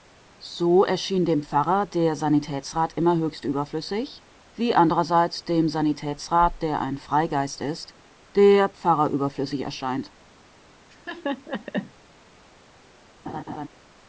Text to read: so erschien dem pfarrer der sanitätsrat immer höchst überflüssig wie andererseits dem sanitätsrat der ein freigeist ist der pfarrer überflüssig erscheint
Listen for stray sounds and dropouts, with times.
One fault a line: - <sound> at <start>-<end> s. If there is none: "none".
- laugh at 10.9-11.9 s
- laugh at 13.3-13.7 s